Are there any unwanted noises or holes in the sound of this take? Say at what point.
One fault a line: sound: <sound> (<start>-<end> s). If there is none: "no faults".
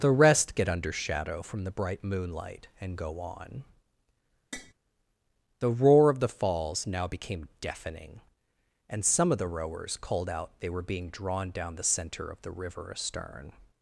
sound: tap (4.5-4.7 s)